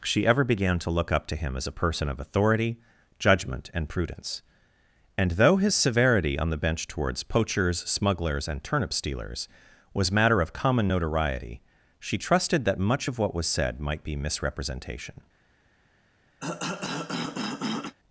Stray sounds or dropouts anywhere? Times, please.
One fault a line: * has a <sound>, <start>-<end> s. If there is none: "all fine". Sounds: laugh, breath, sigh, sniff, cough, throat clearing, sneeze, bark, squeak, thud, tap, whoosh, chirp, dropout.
* has a cough, 16.4-18.0 s